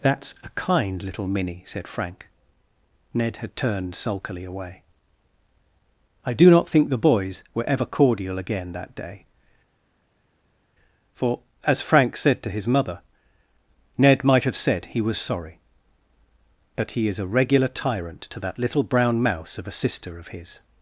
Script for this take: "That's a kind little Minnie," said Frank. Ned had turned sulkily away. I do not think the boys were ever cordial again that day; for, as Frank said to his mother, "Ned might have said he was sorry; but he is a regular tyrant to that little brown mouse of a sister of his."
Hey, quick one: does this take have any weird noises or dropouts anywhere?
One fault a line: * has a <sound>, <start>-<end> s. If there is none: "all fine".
all fine